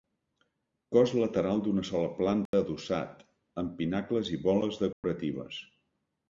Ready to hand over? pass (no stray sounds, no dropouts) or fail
fail